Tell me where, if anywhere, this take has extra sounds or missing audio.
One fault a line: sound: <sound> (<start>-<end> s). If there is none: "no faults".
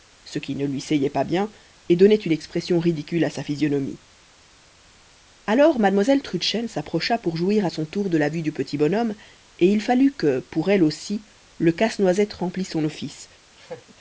sound: laugh (13.6-13.9 s)